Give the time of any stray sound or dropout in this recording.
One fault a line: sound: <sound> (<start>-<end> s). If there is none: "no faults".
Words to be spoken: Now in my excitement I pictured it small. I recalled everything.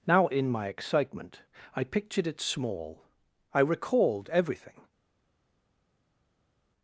no faults